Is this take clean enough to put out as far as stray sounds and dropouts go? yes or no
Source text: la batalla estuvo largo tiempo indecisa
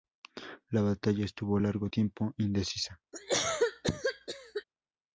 no